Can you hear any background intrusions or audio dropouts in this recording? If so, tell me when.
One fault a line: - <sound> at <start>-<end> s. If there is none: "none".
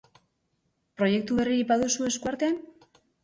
none